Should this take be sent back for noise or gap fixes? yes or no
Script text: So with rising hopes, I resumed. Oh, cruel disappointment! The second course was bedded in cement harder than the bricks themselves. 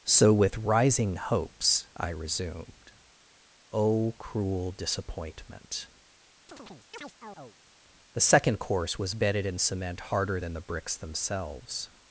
yes